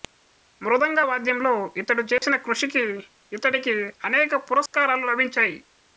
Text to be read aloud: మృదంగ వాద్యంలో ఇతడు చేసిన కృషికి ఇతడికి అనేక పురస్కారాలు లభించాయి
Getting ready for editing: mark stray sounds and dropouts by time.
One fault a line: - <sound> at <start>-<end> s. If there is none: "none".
- dropout at 2.2-2.2 s
- dropout at 4.7-4.7 s